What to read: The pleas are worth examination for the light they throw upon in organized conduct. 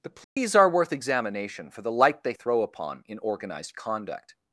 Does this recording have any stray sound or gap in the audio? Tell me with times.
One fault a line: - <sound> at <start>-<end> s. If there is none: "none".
- dropout at 0.2-0.4 s